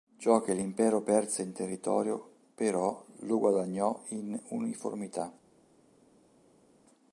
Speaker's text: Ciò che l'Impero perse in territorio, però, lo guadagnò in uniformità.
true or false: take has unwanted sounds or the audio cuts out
false